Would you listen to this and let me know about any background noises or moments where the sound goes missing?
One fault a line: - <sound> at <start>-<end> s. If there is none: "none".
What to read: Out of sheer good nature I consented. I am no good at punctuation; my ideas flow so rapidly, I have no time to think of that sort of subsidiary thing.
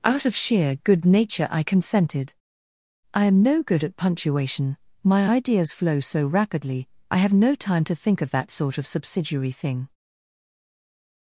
none